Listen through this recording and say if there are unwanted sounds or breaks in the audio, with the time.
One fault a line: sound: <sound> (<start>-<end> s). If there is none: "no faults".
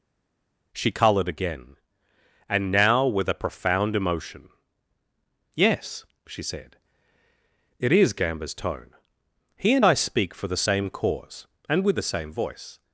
no faults